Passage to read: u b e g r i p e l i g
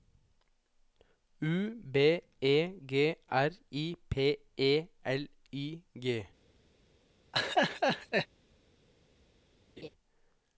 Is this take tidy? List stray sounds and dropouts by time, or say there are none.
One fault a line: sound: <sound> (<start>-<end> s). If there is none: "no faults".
sound: laugh (7.3-8.3 s)
sound: laugh (9.8-9.9 s)